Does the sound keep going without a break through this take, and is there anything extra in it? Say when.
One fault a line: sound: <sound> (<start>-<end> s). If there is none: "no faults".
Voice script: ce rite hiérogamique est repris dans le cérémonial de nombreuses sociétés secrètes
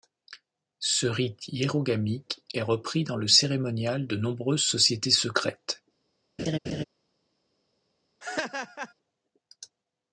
sound: laugh (6.4-6.8 s)
sound: laugh (8.2-8.9 s)